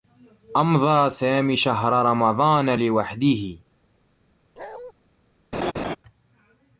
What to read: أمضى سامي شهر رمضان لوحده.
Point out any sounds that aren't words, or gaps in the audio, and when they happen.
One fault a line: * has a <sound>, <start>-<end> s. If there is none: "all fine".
* has a bark, 4.6-4.9 s
* has a laugh, 5.5-6.0 s